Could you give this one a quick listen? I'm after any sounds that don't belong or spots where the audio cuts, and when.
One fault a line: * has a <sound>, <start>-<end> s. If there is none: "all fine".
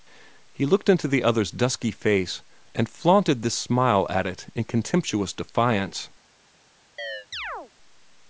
* has a chirp, 7.0-7.7 s